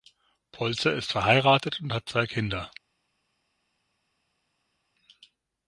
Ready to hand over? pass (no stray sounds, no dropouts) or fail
pass